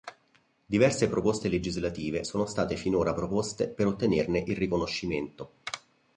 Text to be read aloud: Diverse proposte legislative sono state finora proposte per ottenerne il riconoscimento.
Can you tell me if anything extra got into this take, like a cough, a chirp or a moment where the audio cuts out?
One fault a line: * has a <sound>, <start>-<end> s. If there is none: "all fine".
all fine